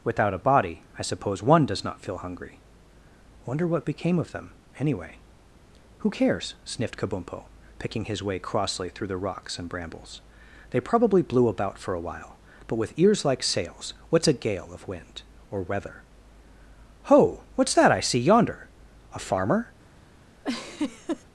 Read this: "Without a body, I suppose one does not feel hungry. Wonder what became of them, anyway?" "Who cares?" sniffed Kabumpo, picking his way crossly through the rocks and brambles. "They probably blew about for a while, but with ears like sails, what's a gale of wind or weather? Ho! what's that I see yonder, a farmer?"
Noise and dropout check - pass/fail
fail